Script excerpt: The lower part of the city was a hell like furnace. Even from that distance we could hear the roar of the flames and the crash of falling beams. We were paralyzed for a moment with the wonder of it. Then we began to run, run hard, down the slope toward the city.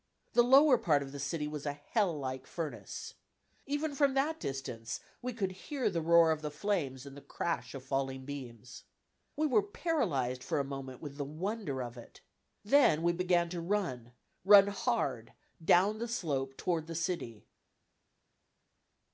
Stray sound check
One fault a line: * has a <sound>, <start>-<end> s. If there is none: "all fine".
all fine